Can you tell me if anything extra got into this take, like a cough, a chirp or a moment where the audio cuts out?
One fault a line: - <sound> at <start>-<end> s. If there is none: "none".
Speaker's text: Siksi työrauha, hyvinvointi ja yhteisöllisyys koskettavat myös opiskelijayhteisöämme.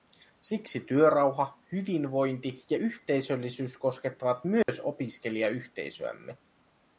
- dropout at 4.6-4.7 s